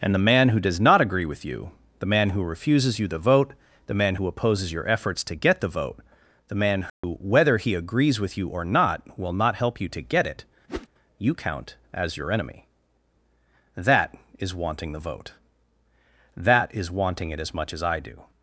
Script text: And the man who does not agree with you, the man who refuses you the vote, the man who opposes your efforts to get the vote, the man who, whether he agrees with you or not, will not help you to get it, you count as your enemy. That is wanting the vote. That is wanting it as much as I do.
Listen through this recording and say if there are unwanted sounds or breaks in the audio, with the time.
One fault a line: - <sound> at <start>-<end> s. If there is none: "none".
- dropout at 6.9-7.0 s
- whoosh at 10.7-10.9 s